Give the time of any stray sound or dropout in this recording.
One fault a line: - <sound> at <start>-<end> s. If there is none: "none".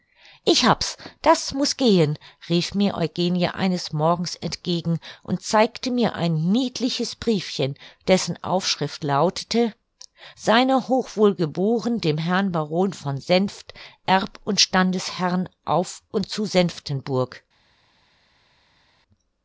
none